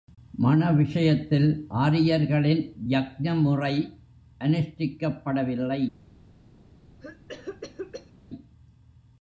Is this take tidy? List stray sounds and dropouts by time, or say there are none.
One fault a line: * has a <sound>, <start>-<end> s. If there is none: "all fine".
* has a cough, 7.0-8.1 s